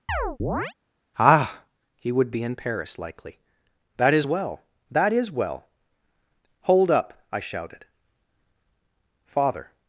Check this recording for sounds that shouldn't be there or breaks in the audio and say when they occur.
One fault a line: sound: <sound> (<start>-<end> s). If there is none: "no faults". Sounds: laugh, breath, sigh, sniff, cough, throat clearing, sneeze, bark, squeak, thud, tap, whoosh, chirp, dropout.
sound: chirp (0.1-0.7 s)